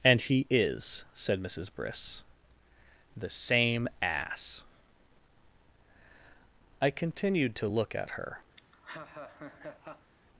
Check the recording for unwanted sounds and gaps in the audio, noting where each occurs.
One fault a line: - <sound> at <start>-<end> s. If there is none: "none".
- laugh at 8.6-10.1 s